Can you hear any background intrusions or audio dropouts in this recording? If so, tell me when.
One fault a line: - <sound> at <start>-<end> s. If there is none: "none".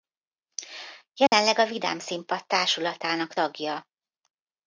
- dropout at 1.3-1.3 s